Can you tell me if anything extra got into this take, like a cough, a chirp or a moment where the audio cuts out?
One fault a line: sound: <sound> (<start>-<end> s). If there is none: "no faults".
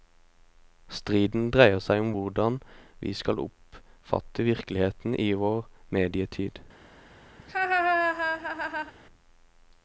sound: laugh (7.4-8.9 s)